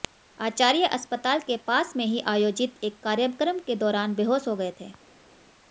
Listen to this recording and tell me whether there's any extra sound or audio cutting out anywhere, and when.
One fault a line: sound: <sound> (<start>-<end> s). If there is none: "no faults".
no faults